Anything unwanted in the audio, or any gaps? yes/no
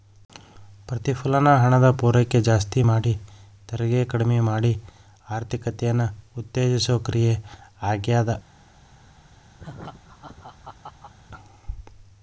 yes